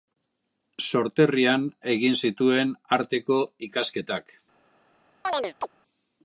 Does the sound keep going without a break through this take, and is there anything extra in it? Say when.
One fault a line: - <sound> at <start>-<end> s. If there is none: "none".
- chirp at 5.2-5.7 s